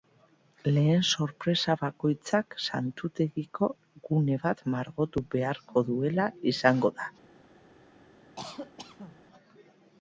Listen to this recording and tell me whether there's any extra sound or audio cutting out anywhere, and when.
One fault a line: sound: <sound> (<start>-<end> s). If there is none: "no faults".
sound: cough (8.4-9.2 s)